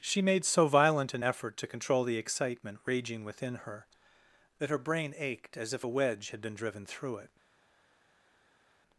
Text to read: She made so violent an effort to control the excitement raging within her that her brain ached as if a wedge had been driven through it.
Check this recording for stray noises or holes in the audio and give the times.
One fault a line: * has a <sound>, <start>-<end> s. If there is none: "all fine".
all fine